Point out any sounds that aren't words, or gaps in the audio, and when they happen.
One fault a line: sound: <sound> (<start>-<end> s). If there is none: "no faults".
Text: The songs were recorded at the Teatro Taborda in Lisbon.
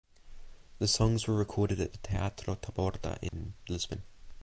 sound: dropout (3.3-3.3 s)